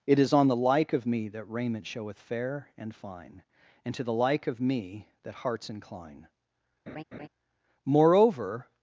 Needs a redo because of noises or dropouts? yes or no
yes